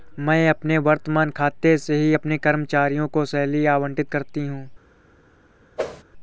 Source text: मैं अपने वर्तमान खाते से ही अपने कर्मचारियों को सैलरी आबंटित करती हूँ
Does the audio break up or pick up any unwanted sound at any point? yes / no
yes